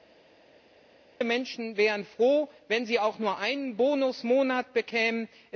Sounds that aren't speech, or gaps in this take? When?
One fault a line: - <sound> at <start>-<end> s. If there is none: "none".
none